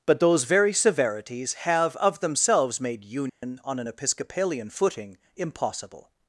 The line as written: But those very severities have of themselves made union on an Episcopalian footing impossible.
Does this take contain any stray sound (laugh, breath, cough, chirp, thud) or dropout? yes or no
yes